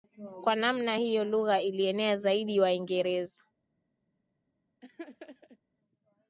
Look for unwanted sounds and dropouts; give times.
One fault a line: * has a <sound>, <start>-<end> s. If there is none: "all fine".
* has a laugh, 4.8-5.6 s